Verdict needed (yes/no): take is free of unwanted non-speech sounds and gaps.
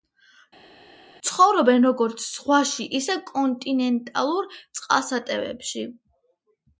yes